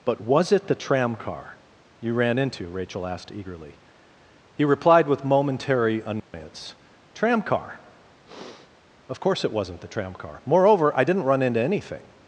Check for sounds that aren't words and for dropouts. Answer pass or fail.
fail